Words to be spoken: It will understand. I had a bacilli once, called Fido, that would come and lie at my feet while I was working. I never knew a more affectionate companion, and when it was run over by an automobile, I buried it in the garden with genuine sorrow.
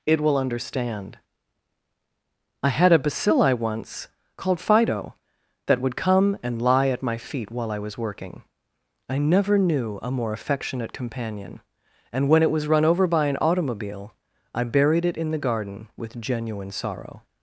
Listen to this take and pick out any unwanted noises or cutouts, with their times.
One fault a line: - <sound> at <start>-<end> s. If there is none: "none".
none